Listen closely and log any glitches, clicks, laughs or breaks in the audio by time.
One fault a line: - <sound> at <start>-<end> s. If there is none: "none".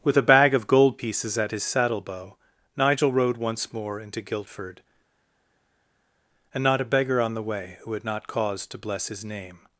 none